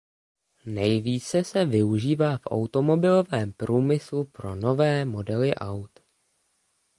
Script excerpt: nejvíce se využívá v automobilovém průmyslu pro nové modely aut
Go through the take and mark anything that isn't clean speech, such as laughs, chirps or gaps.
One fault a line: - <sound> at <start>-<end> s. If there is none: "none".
none